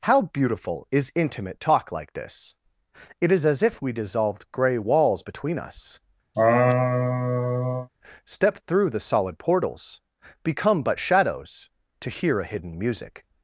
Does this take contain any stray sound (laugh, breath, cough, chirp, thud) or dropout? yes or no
yes